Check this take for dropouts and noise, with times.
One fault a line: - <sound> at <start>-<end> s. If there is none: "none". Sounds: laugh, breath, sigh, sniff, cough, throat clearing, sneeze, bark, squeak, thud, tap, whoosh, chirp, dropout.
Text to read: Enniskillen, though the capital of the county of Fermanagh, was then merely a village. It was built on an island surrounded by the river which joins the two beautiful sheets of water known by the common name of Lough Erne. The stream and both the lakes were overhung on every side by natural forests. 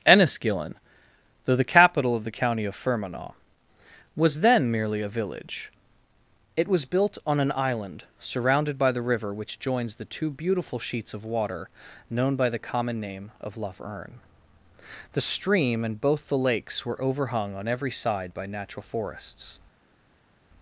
none